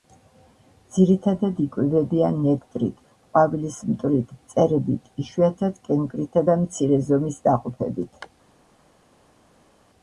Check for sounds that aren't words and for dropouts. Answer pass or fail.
pass